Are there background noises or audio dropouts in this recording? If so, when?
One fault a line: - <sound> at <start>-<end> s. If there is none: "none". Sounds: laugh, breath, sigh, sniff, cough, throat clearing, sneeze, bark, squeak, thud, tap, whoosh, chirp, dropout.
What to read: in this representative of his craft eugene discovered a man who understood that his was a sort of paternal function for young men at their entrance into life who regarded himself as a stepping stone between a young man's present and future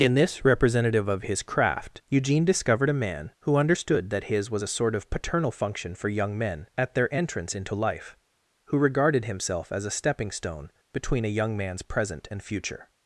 none